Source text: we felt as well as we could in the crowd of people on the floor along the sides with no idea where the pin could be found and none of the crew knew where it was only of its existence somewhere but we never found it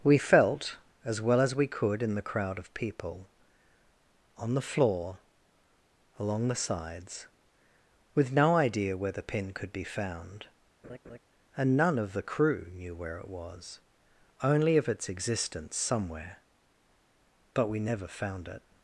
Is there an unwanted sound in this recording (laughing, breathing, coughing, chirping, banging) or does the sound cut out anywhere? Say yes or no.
yes